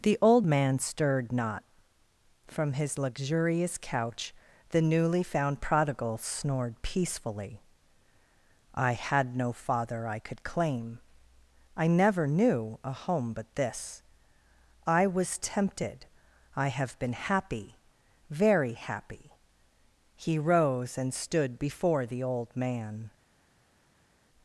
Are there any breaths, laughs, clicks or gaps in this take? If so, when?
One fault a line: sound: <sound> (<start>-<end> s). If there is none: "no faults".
no faults